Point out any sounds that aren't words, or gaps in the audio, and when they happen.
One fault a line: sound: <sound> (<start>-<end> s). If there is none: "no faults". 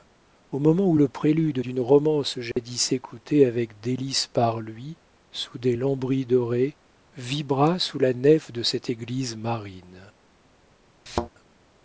sound: dropout (2.5-2.6 s)
sound: thud (11.1-11.3 s)